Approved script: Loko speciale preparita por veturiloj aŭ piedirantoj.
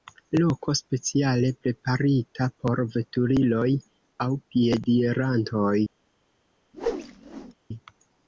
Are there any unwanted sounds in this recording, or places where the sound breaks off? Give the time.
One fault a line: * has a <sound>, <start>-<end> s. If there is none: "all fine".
* has a whoosh, 6.7-7.5 s